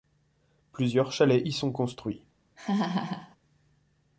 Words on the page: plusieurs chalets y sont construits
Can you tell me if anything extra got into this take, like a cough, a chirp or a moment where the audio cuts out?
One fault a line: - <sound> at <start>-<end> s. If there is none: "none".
- laugh at 2.6-3.4 s